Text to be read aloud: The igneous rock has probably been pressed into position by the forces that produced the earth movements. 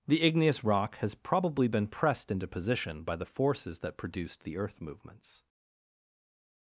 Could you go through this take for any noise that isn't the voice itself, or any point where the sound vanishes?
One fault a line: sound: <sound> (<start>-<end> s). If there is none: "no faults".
no faults